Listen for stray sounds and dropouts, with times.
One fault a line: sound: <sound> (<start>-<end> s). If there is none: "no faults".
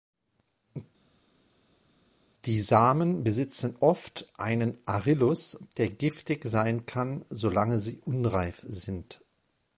no faults